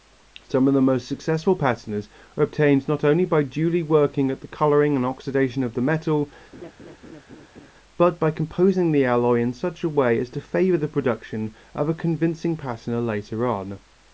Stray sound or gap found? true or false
true